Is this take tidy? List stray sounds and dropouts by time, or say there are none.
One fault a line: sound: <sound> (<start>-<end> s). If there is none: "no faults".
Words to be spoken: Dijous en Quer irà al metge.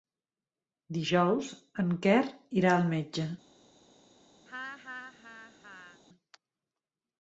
sound: laugh (4.5-6.0 s)